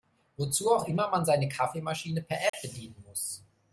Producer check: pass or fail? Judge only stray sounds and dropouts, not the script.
fail